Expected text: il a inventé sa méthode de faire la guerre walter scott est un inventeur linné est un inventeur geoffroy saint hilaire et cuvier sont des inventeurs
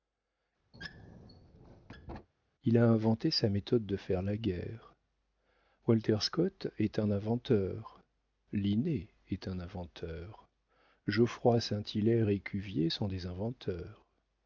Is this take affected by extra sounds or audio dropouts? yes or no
yes